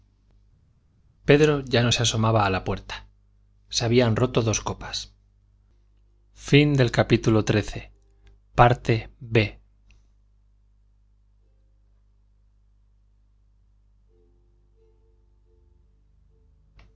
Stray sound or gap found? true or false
false